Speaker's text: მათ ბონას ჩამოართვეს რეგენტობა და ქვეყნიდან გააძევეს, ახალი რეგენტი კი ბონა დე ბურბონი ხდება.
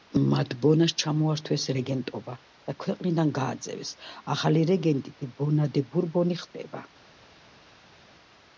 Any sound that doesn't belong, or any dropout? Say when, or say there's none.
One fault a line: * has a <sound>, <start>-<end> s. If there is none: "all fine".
all fine